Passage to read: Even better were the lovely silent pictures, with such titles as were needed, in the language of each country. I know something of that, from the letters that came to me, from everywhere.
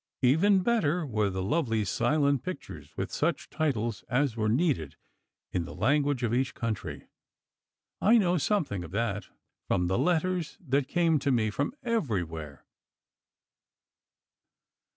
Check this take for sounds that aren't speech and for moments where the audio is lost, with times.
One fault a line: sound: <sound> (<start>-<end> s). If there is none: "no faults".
no faults